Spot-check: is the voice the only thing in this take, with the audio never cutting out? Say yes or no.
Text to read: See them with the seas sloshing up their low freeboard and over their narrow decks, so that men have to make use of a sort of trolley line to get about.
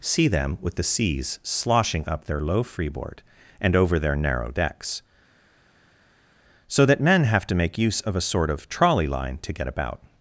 yes